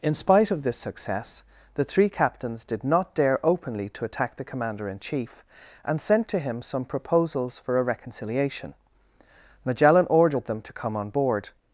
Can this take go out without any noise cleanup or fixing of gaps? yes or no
yes